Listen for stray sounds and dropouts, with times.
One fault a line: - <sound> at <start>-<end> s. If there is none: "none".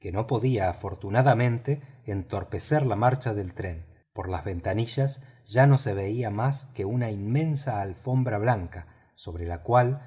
none